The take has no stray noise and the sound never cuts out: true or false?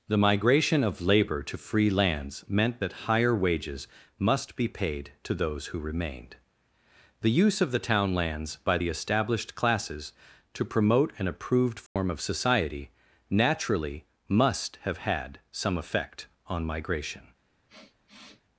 false